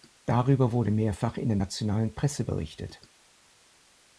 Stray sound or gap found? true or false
false